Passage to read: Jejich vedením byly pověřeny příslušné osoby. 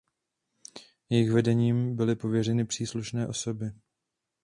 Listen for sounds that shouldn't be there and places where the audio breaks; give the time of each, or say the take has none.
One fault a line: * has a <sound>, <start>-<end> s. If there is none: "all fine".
all fine